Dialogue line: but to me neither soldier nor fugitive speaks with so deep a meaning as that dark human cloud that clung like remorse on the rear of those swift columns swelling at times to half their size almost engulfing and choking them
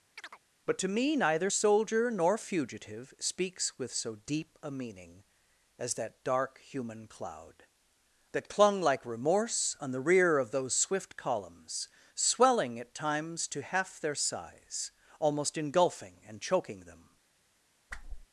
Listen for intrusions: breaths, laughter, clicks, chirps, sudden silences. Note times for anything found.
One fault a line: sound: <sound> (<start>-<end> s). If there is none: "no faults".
sound: chirp (0.2-0.4 s)
sound: whoosh (17.9-18.3 s)